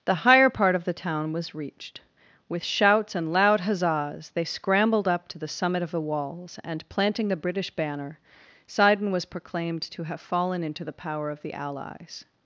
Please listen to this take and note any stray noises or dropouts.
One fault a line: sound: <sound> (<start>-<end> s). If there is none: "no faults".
no faults